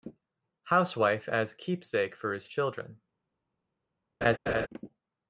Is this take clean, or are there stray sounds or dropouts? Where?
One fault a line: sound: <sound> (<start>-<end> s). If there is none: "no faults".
sound: laugh (4.2-4.7 s)